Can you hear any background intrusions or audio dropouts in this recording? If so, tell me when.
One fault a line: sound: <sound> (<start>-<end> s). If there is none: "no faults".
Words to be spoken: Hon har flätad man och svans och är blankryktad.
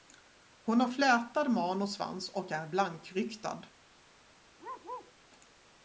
sound: bark (4.6-5.1 s)